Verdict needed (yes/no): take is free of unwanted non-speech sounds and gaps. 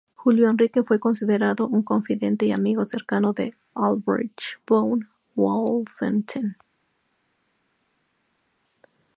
yes